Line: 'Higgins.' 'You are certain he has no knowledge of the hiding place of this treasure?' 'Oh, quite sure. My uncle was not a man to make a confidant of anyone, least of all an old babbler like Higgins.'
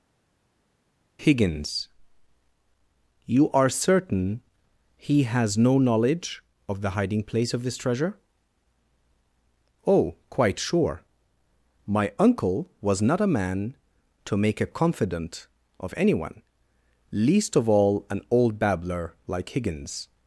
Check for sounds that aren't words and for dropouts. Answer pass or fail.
pass